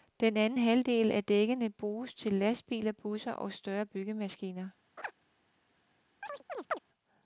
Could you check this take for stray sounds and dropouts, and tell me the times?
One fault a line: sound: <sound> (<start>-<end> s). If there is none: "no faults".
sound: laugh (5.0-5.1 s)
sound: chirp (6.2-6.8 s)